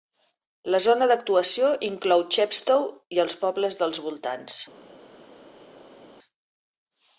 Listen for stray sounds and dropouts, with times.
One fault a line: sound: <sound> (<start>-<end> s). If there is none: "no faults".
no faults